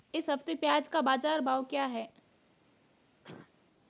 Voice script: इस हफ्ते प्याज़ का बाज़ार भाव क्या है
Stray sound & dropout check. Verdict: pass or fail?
fail